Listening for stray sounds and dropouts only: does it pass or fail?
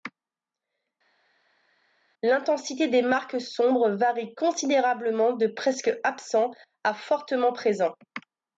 pass